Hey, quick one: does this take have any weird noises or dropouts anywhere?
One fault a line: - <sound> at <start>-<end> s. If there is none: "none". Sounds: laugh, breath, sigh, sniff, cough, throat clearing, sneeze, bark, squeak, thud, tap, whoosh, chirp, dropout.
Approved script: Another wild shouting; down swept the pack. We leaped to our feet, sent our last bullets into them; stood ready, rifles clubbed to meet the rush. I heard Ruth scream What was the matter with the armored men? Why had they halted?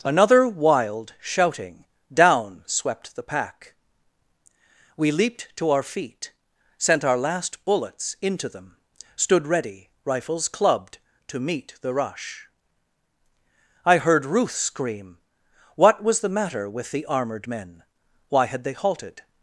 none